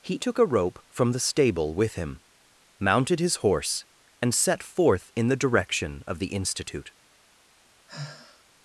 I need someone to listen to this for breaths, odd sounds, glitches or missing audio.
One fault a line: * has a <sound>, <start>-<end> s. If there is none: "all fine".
* has a sigh, 7.9-8.4 s